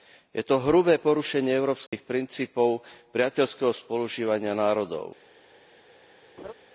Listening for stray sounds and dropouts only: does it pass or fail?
fail